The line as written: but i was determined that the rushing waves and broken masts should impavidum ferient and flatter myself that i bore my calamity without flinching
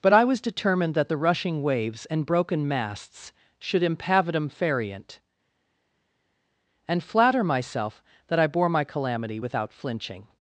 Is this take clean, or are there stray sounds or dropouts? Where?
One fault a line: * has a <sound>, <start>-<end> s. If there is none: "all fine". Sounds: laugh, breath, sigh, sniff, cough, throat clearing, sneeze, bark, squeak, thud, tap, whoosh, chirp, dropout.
all fine